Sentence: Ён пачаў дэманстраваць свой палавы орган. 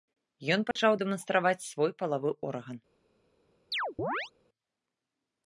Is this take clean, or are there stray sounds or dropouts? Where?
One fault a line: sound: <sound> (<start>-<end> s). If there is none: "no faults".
sound: dropout (0.7-0.8 s)
sound: chirp (3.7-4.3 s)